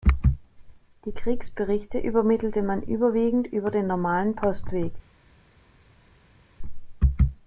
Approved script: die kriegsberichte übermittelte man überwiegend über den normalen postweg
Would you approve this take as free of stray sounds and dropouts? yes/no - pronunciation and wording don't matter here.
yes